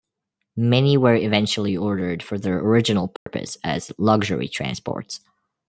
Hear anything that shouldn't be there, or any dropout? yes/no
yes